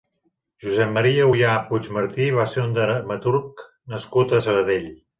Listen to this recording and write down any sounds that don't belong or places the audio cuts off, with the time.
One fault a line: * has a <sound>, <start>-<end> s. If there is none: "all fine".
all fine